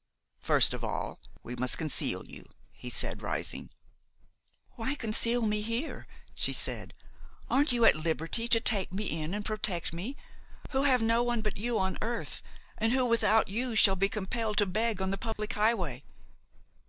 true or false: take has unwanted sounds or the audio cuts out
true